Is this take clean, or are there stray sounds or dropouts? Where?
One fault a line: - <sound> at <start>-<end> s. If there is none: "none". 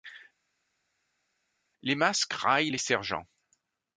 none